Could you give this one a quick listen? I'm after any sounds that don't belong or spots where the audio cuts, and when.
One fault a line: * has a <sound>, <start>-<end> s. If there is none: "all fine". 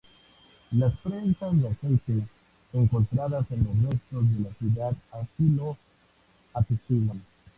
all fine